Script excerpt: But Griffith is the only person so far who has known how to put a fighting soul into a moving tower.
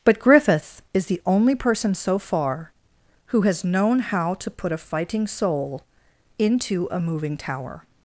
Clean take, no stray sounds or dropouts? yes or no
yes